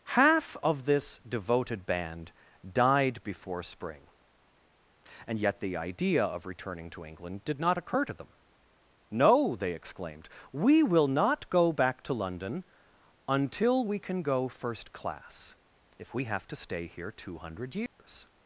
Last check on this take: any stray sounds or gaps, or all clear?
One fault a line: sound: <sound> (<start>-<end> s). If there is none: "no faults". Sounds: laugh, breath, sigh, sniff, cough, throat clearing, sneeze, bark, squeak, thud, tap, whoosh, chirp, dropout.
sound: dropout (17.9-18.0 s)